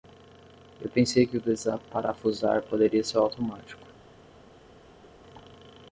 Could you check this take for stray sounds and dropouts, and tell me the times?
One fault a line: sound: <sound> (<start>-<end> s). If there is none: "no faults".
no faults